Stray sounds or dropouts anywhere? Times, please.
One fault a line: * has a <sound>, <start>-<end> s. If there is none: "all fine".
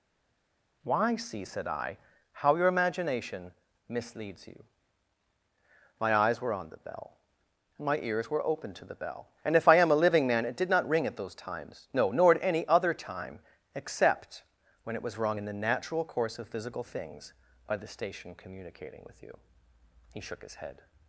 all fine